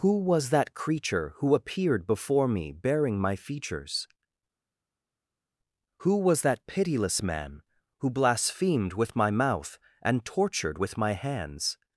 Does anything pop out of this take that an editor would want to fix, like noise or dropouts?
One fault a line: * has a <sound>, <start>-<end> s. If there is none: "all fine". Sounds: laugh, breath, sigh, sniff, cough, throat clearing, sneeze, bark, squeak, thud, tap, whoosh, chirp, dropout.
all fine